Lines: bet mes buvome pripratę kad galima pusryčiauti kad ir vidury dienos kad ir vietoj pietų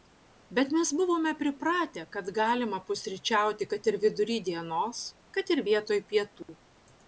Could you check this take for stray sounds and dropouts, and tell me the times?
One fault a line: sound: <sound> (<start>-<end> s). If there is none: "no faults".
sound: dropout (6.4-6.5 s)